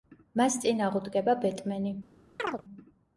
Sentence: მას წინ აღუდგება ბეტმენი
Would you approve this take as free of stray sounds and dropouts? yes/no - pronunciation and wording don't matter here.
no